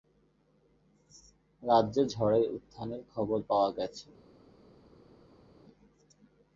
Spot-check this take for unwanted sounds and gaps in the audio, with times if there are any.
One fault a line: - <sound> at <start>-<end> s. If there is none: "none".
none